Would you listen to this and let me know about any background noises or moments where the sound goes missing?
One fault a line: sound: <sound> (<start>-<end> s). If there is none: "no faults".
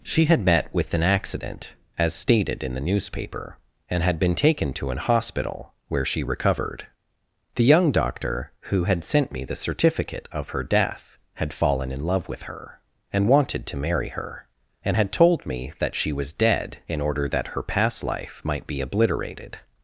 no faults